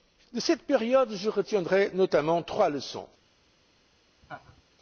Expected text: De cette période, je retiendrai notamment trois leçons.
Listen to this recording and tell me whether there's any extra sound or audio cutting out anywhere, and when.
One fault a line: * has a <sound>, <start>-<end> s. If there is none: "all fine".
* has a laugh, 4.2-4.6 s